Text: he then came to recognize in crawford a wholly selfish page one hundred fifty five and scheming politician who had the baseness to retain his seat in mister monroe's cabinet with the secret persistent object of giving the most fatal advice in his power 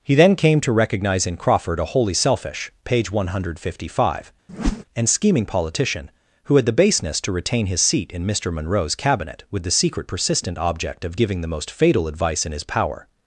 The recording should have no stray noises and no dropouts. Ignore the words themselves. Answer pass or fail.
fail